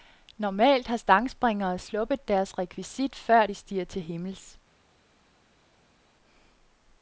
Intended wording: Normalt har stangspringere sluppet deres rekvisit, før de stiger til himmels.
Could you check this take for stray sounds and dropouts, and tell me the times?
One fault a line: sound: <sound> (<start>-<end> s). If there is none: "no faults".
no faults